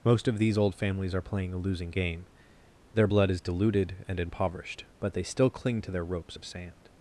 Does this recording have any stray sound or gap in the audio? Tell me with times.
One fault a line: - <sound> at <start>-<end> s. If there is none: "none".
none